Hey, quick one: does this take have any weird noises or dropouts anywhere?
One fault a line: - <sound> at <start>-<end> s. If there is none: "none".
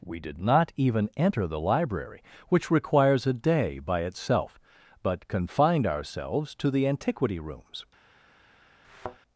- thud at 8.8-9.2 s